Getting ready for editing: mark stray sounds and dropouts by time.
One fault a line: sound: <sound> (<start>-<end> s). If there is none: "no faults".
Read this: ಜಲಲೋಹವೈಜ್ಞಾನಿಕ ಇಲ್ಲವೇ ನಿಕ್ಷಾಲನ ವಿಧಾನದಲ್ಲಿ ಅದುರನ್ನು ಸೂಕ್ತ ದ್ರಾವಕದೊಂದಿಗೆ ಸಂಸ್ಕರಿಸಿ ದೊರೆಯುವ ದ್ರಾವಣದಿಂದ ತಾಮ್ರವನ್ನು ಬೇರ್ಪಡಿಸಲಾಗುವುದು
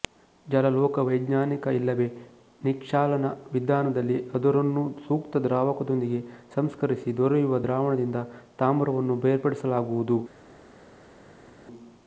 no faults